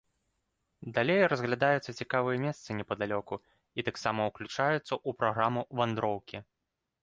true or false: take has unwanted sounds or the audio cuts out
false